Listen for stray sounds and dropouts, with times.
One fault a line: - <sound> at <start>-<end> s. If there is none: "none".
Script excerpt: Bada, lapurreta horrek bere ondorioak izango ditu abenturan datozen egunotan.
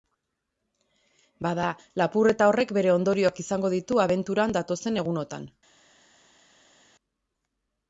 none